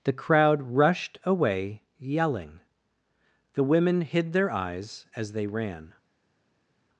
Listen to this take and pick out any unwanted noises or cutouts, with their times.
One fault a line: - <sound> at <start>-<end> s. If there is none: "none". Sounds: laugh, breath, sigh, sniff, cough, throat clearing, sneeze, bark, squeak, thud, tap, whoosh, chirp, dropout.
none